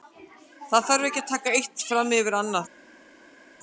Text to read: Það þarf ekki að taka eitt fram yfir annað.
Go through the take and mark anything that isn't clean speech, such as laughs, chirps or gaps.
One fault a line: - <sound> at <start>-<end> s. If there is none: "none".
none